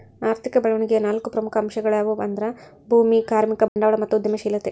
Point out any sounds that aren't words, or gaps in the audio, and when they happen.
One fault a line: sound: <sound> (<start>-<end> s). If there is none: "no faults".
sound: dropout (3.7-3.8 s)